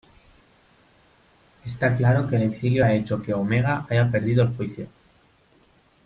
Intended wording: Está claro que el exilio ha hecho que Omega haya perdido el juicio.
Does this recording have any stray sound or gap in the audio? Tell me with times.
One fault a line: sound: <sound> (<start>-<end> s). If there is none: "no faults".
no faults